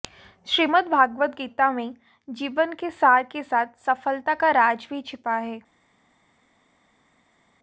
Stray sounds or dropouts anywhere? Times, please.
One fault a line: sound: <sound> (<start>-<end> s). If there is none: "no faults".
no faults